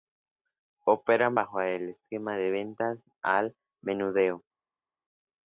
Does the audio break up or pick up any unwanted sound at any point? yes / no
no